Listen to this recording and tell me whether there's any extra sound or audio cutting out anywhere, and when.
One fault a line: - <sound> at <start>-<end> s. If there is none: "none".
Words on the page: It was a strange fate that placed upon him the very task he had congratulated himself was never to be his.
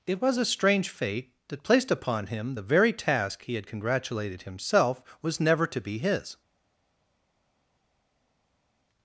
none